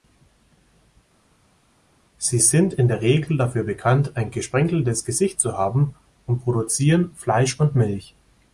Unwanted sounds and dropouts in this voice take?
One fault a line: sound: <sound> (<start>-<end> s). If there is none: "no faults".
no faults